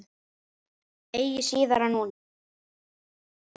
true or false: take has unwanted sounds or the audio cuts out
false